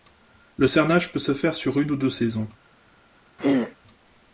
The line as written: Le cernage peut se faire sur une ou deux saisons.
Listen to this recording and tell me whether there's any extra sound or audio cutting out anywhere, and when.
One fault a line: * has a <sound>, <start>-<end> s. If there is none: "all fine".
* has a throat clearing, 3.4-3.8 s